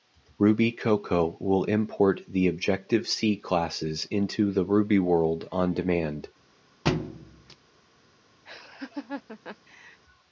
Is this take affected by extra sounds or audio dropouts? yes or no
yes